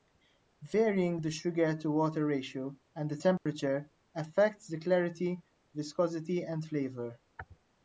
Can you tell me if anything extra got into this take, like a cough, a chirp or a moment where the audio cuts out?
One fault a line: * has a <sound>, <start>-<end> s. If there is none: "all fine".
* has a dropout, 3.4-3.5 s